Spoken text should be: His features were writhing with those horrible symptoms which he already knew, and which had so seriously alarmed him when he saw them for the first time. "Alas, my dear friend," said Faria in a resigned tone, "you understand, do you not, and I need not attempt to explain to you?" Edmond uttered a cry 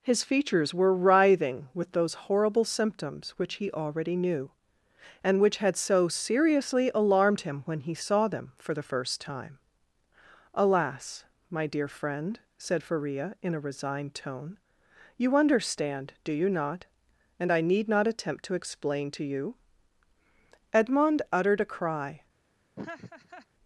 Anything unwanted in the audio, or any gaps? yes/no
yes